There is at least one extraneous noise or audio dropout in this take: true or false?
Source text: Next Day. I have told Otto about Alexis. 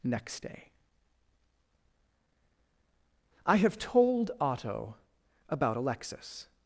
false